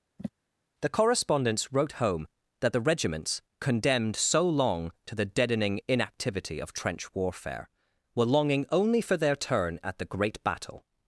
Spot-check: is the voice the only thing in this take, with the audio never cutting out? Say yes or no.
no